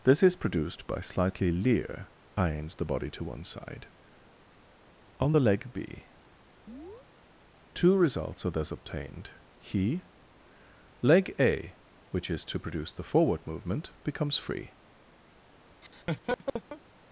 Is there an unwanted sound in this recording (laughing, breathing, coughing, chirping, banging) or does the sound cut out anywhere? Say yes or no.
yes